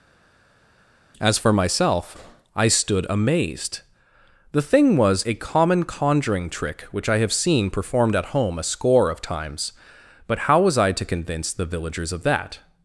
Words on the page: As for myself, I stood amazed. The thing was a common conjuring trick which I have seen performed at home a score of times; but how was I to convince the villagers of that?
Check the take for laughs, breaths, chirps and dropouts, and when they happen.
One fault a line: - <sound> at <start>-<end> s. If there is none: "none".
none